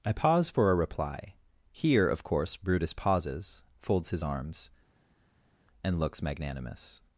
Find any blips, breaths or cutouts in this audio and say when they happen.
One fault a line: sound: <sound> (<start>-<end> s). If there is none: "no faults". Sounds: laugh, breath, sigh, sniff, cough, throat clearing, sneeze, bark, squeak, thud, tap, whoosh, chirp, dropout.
no faults